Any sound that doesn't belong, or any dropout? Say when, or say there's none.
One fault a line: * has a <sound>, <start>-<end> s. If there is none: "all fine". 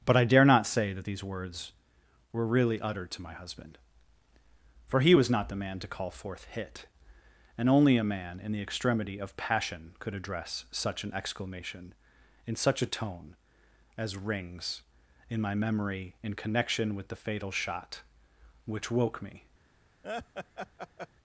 * has a laugh, 20.0-21.1 s